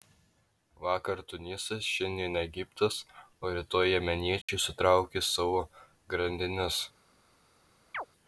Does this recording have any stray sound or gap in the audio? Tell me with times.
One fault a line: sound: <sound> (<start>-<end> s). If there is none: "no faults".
sound: dropout (4.4-4.5 s)
sound: chirp (7.9-8.1 s)